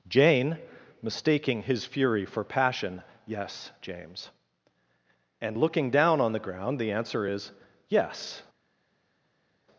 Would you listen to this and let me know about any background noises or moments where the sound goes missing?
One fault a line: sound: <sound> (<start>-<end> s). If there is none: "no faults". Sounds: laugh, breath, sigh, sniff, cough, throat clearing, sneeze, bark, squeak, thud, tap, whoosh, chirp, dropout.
no faults